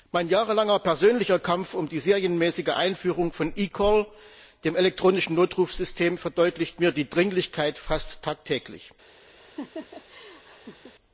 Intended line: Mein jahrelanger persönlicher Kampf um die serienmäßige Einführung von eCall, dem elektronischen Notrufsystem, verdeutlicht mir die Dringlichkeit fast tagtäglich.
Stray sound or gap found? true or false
true